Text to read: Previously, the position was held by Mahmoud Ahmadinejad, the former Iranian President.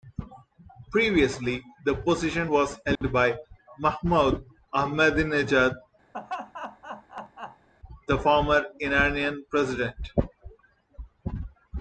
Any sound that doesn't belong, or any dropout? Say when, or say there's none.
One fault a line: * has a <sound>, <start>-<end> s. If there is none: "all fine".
* has a dropout, 3.0-3.0 s
* has a laugh, 6.1-7.7 s